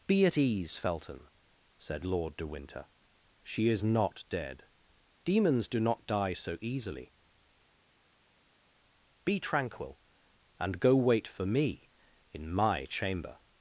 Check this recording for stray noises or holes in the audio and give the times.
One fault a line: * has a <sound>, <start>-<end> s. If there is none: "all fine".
all fine